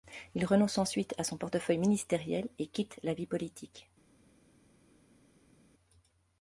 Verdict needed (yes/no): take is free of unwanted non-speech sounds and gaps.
yes